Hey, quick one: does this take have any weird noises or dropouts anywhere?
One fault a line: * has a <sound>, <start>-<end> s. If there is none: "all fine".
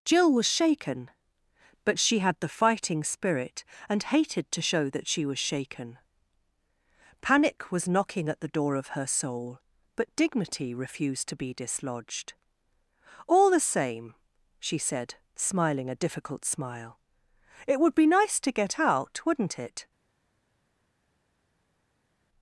all fine